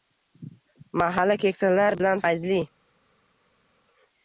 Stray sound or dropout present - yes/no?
no